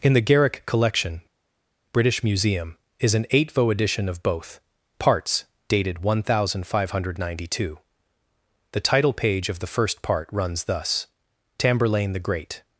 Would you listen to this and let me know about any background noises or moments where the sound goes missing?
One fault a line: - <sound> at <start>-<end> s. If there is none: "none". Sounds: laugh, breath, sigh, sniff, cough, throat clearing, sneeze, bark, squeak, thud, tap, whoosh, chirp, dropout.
none